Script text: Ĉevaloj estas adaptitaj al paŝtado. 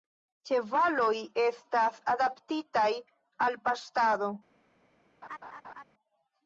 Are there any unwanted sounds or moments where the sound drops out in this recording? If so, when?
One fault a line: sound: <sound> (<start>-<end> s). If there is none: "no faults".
sound: laugh (5.2-5.8 s)